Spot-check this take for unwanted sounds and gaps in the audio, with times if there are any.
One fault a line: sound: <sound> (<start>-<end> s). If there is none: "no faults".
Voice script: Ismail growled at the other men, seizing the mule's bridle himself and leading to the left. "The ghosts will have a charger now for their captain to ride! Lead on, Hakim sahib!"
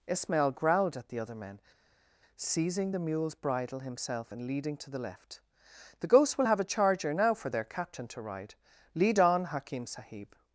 no faults